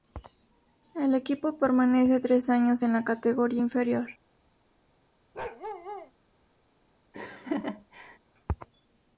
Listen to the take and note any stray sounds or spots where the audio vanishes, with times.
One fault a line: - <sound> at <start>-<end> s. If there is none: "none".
- bark at 5.3-6.1 s
- laugh at 7.1-8.2 s